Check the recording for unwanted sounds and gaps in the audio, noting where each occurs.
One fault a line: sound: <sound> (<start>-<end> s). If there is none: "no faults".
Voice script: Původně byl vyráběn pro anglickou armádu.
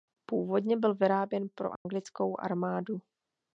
sound: dropout (1.8-1.9 s)